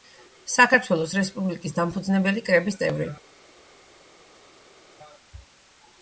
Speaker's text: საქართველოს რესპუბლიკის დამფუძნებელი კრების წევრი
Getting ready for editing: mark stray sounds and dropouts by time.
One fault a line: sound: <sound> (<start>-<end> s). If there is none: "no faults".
no faults